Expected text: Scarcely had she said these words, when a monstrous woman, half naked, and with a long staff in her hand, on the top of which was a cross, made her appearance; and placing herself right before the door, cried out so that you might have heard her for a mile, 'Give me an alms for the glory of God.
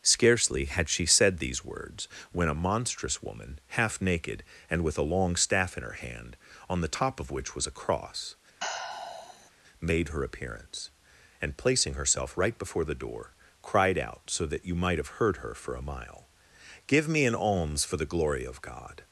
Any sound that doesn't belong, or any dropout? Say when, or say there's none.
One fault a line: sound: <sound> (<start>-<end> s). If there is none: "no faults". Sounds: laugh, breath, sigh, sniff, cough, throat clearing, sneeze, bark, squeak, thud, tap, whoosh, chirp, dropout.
sound: sigh (8.6-9.5 s)